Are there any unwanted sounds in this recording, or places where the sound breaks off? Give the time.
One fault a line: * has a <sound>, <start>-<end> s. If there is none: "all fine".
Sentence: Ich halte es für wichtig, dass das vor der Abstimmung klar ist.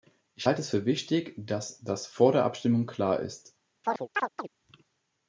* has a chirp, 3.8-4.5 s